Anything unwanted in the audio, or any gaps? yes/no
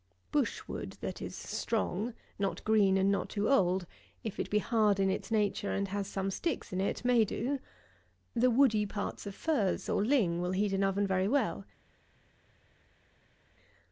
no